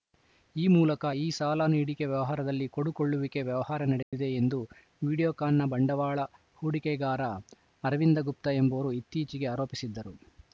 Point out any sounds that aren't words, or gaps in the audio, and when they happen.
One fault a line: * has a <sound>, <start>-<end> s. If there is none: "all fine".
* has a dropout, 4.0-4.1 s